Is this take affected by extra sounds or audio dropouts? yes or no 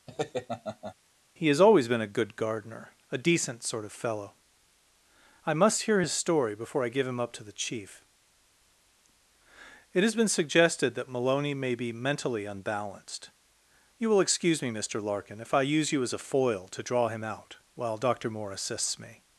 yes